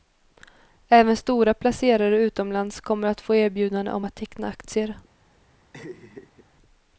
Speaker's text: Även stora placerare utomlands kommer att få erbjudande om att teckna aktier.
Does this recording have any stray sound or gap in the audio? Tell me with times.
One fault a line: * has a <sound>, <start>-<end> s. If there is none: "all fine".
* has a laugh, 5.7-6.5 s